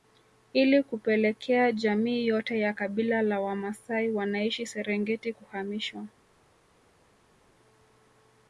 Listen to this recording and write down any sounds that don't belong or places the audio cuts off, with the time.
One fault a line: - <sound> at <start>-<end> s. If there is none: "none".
none